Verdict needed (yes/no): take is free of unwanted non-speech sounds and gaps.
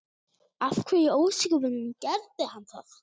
yes